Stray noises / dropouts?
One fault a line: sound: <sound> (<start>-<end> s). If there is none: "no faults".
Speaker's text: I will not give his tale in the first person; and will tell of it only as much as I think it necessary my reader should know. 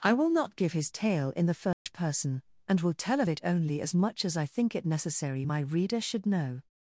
sound: dropout (1.7-1.9 s)